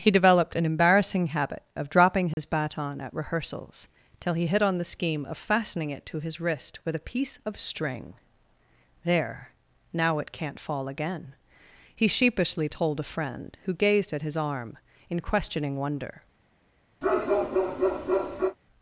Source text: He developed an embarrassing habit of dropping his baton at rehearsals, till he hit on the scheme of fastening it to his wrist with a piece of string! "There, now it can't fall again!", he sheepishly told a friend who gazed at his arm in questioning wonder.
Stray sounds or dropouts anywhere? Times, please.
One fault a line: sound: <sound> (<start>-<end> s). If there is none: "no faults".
sound: dropout (2.3-2.4 s)
sound: bark (17.0-18.6 s)